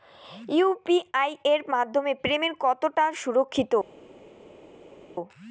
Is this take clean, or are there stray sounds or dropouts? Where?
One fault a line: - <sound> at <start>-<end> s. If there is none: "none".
none